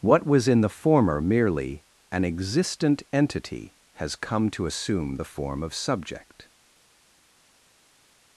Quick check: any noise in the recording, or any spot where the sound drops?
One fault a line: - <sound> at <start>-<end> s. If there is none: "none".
none